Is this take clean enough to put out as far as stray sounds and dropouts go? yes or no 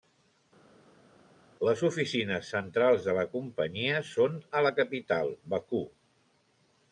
yes